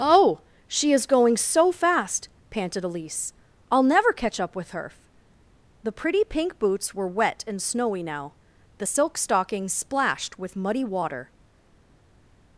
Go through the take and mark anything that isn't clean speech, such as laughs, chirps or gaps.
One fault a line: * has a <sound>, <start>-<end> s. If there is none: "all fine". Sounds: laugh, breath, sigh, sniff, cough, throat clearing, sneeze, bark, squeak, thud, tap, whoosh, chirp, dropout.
all fine